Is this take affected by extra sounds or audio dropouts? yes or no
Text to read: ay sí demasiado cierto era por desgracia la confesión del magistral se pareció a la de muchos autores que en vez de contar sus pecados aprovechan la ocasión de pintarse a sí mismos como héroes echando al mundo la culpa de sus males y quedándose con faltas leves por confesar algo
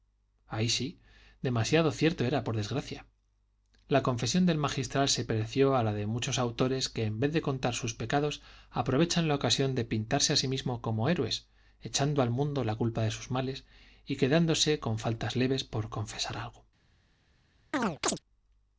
yes